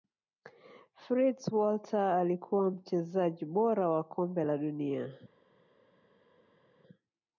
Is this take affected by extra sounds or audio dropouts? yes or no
no